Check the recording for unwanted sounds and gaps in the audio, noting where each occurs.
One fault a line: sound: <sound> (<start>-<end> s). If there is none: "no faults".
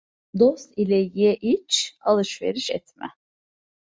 no faults